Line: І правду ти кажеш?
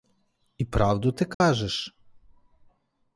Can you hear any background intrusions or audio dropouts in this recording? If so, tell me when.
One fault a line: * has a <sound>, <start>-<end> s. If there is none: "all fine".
* has a dropout, 1.3-1.4 s